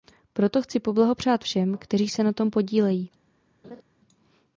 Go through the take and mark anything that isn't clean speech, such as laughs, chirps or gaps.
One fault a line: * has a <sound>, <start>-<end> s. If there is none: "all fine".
* has a laugh, 3.6-3.8 s